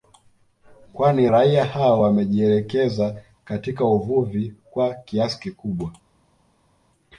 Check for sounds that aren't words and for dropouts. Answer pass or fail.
pass